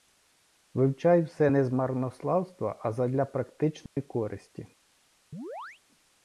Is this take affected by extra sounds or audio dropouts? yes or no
yes